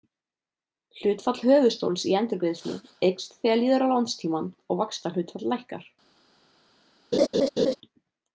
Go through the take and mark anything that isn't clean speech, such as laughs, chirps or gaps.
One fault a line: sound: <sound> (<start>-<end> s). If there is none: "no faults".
sound: laugh (7.1-7.8 s)